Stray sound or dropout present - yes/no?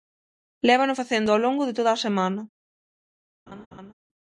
yes